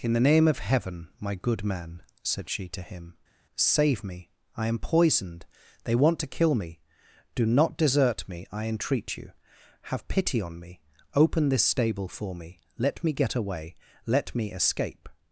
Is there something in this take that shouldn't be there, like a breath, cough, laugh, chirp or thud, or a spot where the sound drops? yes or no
no